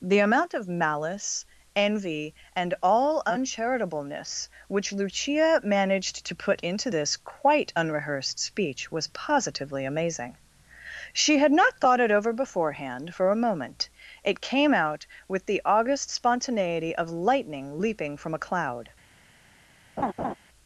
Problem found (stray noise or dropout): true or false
true